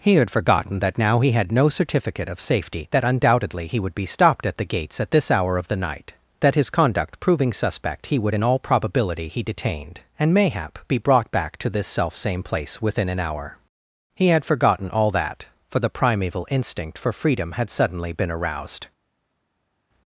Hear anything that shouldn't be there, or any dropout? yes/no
no